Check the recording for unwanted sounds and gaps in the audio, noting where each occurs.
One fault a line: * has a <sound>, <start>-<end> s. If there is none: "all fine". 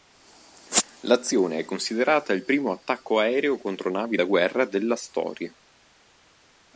all fine